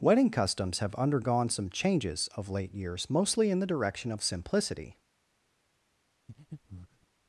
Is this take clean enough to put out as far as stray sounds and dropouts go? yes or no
no